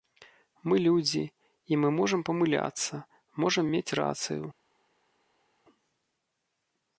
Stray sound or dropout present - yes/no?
no